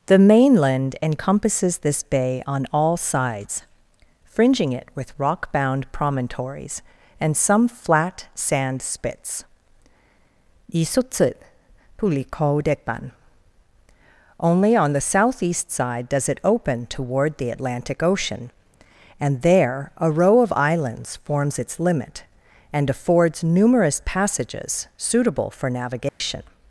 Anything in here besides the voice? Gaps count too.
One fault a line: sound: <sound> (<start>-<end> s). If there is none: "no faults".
sound: dropout (26.1-26.2 s)